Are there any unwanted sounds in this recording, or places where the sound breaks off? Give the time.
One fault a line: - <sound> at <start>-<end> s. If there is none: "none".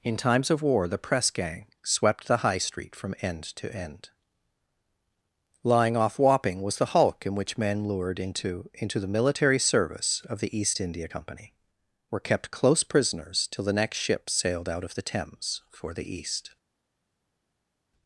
none